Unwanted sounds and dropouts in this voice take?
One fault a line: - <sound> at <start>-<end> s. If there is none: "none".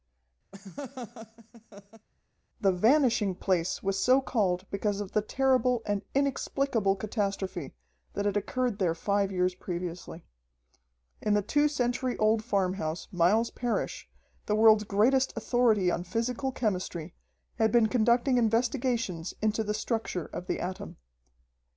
- laugh at 0.5-2.1 s